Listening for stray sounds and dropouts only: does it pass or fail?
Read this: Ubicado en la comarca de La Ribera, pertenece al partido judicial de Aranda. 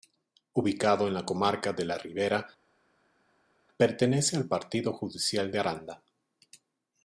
pass